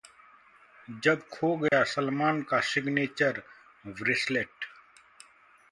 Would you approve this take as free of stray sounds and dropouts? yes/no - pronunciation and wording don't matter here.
no